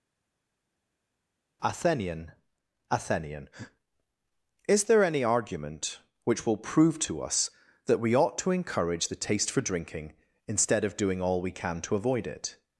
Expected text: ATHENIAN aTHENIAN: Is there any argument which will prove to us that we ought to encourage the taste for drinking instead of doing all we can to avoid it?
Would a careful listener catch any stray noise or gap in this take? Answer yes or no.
no